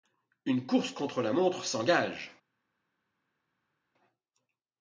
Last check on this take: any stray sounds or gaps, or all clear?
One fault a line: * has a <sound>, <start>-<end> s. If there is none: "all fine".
all fine